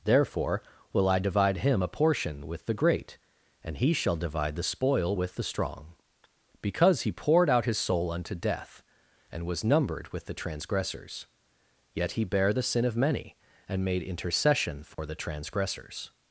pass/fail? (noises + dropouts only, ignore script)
fail